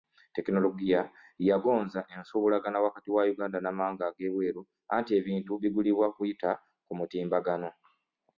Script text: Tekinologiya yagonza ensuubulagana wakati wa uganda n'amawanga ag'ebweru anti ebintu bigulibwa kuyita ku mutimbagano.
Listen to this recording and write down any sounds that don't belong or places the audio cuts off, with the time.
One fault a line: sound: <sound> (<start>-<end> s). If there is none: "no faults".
no faults